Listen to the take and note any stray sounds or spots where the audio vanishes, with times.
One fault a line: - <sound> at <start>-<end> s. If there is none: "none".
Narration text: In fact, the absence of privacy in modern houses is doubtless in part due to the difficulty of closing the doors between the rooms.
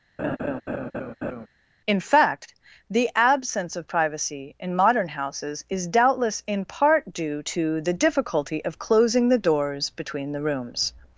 - laugh at 0.2-1.5 s